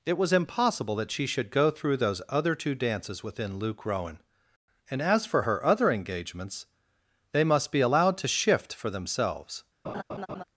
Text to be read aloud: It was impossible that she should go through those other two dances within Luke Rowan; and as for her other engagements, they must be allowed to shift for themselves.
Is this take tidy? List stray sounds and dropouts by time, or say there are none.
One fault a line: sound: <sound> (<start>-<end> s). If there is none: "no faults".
sound: laugh (9.8-10.4 s)